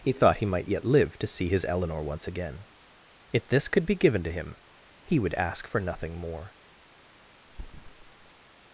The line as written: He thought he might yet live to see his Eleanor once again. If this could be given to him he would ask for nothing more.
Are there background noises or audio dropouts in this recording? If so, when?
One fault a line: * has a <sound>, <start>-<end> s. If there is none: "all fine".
* has a thud, 7.5-8.4 s